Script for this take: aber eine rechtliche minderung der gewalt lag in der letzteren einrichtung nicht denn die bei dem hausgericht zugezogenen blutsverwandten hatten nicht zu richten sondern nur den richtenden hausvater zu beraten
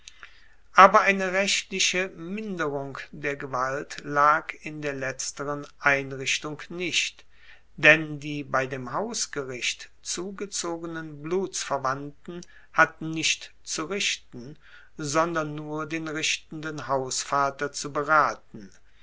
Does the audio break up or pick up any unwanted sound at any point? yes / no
no